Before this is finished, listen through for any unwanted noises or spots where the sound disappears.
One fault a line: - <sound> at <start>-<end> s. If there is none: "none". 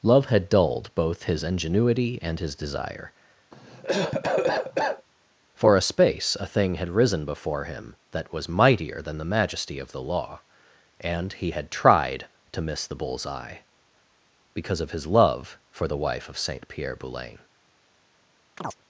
- cough at 3.5-5.1 s
- chirp at 18.6-18.8 s